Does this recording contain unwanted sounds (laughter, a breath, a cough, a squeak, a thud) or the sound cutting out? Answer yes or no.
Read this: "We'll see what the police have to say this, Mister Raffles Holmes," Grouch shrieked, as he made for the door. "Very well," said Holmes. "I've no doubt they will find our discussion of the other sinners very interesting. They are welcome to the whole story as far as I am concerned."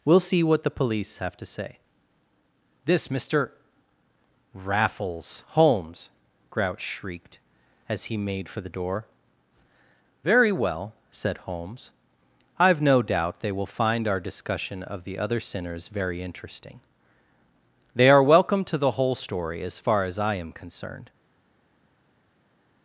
no